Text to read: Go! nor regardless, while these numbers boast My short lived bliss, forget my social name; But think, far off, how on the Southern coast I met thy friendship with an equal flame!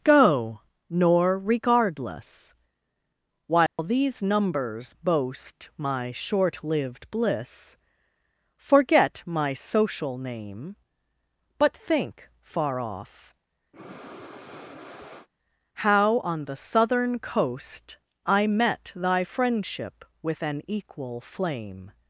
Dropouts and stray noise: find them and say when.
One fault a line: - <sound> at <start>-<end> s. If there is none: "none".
- dropout at 3.7-3.8 s
- breath at 13.7-15.3 s